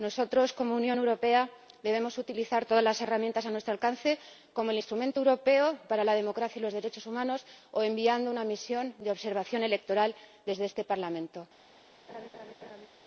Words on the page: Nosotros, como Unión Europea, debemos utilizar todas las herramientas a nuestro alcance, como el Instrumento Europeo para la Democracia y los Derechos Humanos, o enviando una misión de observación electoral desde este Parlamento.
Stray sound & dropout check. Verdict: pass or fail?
fail